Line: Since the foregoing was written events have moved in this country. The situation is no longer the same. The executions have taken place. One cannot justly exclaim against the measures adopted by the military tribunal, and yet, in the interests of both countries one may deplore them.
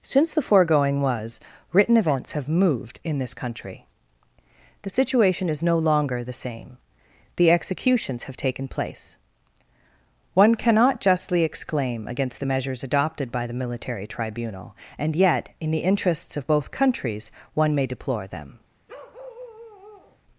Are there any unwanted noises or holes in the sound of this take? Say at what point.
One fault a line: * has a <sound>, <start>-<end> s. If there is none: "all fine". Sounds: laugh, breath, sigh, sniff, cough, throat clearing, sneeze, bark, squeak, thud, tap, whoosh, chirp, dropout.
* has a bark, 18.9-20.2 s